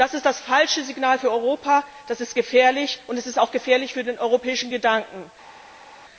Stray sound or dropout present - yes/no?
no